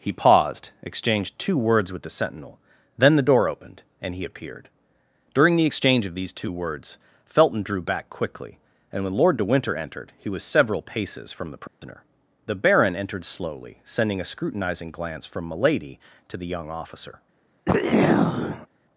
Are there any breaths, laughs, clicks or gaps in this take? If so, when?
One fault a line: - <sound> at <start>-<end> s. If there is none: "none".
- dropout at 11.7-11.8 s
- throat clearing at 17.7-18.7 s